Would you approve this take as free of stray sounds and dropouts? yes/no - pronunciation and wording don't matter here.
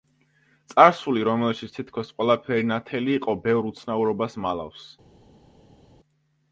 yes